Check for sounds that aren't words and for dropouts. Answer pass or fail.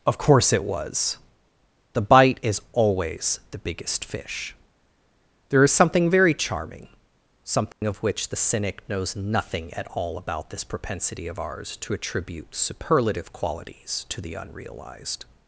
fail